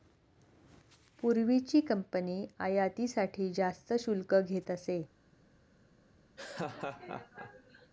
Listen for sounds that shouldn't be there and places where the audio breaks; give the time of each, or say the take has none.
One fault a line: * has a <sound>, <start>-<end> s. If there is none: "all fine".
* has a laugh, 6.4-7.9 s